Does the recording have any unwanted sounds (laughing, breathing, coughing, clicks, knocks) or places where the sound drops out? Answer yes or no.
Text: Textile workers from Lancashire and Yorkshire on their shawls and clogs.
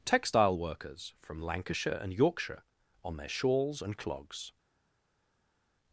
no